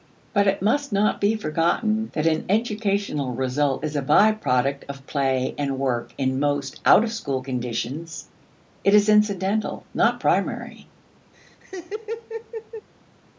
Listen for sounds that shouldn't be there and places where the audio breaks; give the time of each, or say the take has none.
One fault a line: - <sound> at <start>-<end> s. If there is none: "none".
- laugh at 11.3-12.9 s